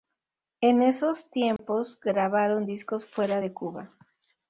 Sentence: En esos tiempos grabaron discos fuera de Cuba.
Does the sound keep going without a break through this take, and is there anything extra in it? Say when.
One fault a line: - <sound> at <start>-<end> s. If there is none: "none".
- dropout at 1.6-1.6 s